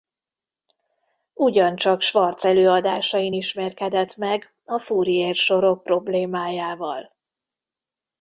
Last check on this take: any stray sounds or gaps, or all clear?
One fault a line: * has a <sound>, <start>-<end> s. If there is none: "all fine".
all fine